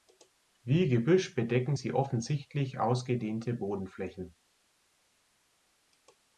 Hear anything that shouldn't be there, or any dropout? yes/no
no